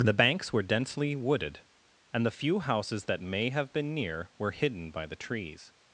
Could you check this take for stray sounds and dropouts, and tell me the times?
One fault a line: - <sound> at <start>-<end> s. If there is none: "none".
none